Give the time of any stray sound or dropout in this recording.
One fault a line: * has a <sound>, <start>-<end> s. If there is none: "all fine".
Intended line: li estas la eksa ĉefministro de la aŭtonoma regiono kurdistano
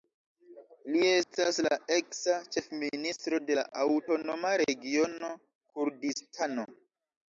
* has a dropout, 1.2-1.3 s